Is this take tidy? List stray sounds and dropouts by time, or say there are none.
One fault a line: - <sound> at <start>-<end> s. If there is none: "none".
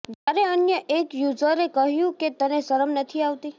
- dropout at 0.1-0.3 s